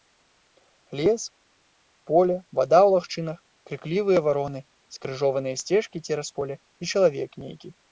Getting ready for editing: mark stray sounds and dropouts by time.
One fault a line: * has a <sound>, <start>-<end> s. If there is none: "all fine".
all fine